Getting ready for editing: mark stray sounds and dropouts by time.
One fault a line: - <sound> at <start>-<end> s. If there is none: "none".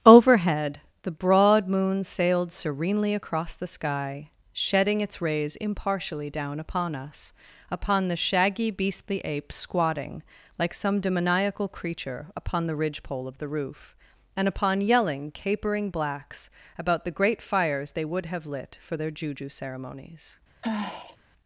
- sigh at 20.6-21.2 s